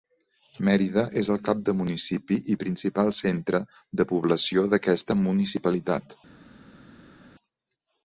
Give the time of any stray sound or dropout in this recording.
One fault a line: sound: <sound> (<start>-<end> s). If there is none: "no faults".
no faults